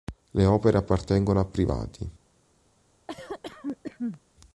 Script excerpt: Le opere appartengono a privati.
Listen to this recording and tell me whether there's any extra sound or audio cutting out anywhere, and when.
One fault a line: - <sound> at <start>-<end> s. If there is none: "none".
- cough at 3.1-4.2 s